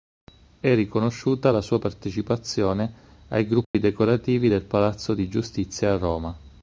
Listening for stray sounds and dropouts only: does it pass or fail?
fail